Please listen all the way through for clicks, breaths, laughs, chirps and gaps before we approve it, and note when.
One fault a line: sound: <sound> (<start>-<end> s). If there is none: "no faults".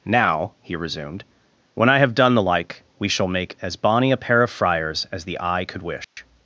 sound: dropout (6.0-6.2 s)